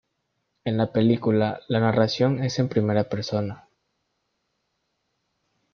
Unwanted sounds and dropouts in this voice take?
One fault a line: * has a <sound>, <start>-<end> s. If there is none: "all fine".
all fine